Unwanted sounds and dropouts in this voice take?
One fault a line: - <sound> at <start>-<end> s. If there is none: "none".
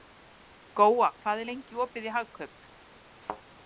- thud at 3.2-3.4 s